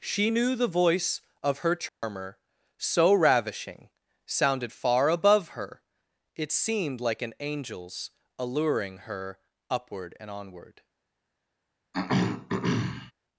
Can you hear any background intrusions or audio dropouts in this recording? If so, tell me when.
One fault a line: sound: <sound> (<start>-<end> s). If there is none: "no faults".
sound: dropout (1.9-2.0 s)
sound: throat clearing (11.9-13.1 s)